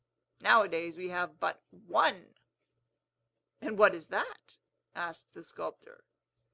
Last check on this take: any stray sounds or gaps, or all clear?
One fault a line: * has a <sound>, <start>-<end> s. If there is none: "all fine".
all fine